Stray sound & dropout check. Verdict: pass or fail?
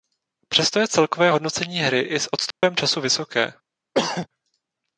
fail